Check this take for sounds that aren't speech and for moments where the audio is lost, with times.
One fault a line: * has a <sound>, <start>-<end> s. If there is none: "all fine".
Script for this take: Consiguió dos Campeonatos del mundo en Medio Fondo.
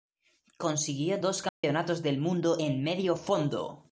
* has a dropout, 1.5-1.6 s